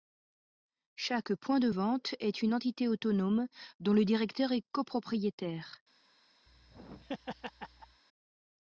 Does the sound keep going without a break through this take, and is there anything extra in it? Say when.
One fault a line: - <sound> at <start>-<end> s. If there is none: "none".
- laugh at 6.5-8.0 s